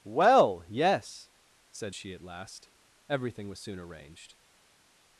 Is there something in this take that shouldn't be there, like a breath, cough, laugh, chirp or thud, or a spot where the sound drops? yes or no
no